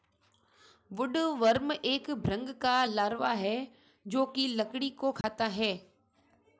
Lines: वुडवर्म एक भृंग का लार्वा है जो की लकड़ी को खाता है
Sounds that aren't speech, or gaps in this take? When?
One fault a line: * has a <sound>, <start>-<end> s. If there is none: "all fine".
* has a dropout, 5.2-5.2 s